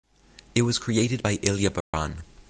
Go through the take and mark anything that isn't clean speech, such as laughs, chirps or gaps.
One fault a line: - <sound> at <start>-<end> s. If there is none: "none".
- dropout at 1.8-1.9 s